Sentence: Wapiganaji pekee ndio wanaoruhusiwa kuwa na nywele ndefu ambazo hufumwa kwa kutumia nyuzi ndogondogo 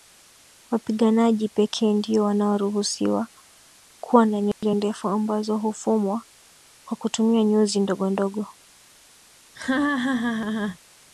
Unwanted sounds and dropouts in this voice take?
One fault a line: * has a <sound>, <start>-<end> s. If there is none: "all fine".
* has a dropout, 4.5-4.6 s
* has a laugh, 9.5-10.8 s